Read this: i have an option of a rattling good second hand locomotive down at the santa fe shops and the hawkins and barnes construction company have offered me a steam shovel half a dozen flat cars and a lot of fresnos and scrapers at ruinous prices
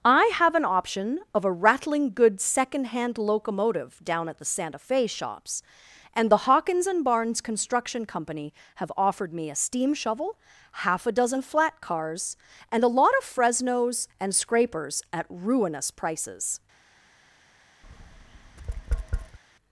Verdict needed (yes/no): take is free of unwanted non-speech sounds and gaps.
no